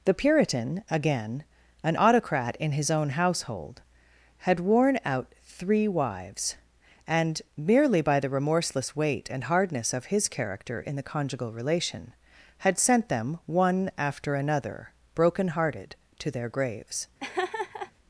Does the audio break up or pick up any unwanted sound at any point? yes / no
yes